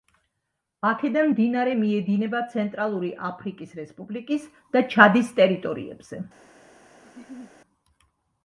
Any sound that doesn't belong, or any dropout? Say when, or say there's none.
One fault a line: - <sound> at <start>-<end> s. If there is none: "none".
- laugh at 7.0-7.5 s